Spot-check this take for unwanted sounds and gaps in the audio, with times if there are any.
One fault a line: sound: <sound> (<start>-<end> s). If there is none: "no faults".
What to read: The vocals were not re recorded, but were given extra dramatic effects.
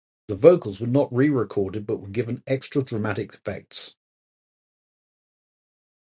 no faults